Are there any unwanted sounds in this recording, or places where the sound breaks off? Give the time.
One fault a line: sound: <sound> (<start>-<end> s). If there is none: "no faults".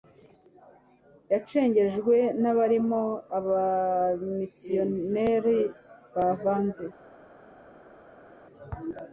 no faults